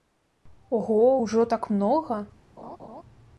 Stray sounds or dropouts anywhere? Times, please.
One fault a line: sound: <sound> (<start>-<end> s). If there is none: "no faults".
sound: laugh (2.6-3.0 s)